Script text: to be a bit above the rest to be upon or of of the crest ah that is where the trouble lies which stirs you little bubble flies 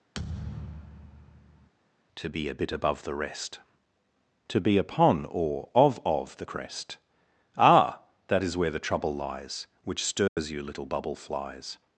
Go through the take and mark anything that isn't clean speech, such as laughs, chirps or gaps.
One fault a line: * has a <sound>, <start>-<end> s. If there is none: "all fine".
* has a thud, 0.1-1.7 s
* has a dropout, 10.3-10.4 s